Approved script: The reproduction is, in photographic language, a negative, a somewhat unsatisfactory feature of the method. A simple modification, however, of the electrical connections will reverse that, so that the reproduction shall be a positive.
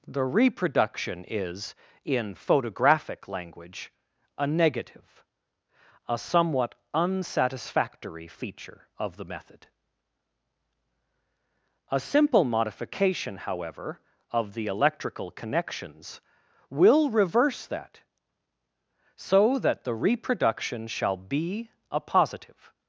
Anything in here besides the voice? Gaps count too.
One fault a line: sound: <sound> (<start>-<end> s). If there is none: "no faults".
no faults